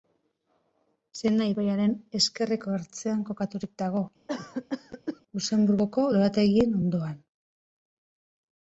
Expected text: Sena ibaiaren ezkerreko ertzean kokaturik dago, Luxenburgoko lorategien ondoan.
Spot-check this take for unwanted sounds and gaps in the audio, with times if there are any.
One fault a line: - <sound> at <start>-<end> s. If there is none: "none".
- cough at 4.3-5.2 s